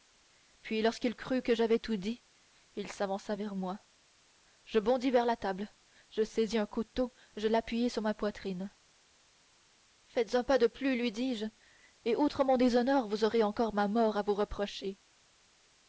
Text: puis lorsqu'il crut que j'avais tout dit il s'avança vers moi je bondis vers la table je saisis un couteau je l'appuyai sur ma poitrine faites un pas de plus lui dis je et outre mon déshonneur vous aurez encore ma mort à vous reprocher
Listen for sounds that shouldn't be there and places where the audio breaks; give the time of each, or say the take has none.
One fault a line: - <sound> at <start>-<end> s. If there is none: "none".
none